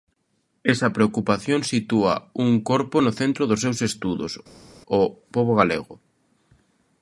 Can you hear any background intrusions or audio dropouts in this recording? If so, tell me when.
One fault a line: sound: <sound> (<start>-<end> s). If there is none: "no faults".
no faults